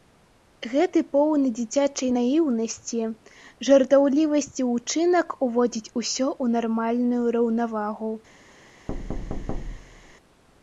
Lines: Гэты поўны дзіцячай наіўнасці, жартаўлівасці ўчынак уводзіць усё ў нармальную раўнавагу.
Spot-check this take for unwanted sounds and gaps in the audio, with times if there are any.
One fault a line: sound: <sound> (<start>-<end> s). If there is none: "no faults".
sound: thud (8.9-10.2 s)